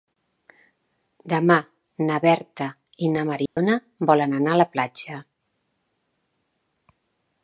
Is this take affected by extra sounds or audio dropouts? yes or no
yes